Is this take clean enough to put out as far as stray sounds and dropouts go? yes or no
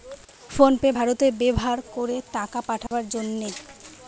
no